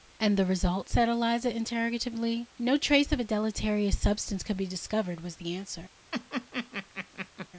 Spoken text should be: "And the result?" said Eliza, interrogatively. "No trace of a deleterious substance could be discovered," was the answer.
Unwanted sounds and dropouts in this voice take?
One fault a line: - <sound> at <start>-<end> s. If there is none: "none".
- laugh at 6.1-7.5 s